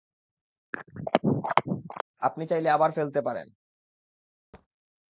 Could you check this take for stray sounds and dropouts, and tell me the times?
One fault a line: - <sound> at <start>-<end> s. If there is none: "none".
- throat clearing at 0.7-2.0 s
- thud at 4.5-4.7 s